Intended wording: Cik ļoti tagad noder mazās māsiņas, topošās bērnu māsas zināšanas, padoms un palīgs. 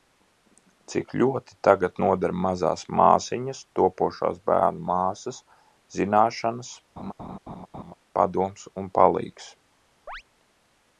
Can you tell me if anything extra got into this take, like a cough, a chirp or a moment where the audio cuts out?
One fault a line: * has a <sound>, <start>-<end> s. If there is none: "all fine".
* has a laugh, 7.0-7.9 s
* has a chirp, 10.1-10.2 s